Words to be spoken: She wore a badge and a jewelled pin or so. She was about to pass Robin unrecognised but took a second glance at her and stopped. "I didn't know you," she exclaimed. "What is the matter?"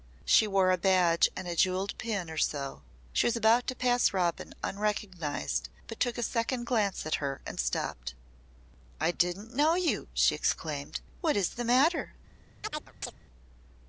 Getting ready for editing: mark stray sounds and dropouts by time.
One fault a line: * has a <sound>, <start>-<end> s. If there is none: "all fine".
* has a chirp, 12.6-13.1 s